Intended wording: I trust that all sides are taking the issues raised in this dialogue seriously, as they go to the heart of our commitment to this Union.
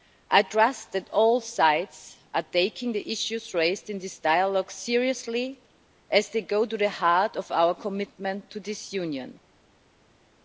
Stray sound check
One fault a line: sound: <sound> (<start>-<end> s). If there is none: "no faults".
no faults